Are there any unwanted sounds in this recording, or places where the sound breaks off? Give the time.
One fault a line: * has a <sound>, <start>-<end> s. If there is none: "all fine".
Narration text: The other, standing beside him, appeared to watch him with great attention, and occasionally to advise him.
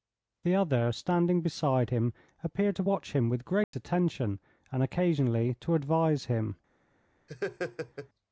* has a dropout, 3.6-3.7 s
* has a laugh, 7.3-8.1 s